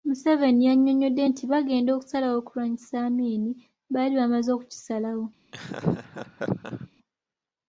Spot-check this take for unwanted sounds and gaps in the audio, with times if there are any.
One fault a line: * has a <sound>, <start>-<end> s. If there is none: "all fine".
* has a laugh, 5.5-6.9 s